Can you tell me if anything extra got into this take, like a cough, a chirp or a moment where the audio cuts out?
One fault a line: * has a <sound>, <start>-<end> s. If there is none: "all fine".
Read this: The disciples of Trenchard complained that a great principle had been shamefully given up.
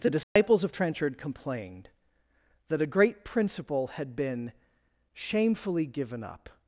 * has a dropout, 0.2-0.4 s